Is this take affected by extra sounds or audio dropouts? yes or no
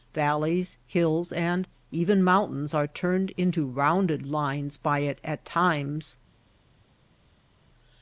no